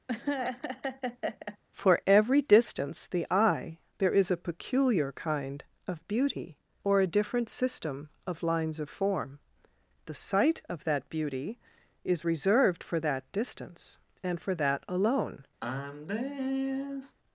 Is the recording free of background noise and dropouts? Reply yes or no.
no